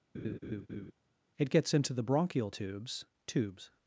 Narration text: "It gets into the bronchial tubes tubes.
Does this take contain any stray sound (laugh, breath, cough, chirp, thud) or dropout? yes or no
yes